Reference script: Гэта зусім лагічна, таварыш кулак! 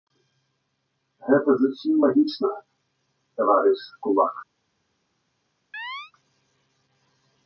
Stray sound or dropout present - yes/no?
yes